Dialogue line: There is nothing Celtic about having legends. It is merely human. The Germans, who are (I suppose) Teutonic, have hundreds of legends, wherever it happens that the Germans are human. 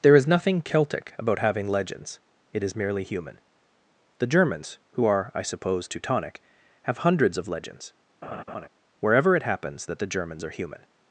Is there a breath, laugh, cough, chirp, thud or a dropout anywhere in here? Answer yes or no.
yes